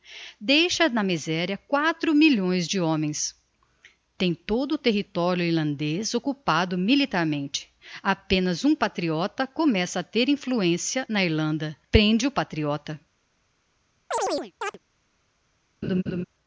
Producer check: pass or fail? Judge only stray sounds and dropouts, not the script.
fail